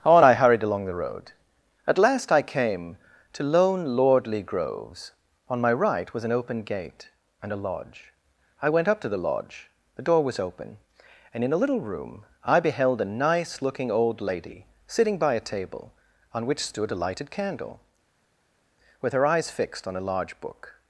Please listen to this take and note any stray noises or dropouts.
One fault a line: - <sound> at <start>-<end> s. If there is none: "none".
none